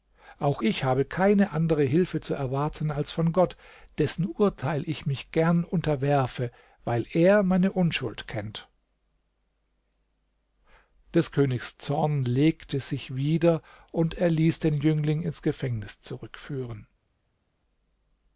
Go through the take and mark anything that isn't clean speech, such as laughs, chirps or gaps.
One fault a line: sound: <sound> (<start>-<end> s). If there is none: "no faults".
no faults